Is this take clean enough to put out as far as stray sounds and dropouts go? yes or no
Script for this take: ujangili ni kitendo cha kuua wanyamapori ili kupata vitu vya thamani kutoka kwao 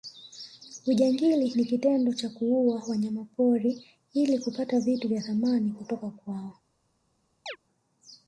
no